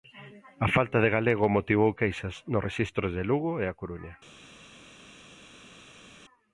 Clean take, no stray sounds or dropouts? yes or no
yes